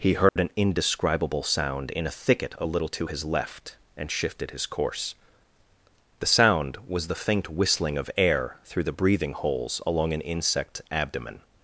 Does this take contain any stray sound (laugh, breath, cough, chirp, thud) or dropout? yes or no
yes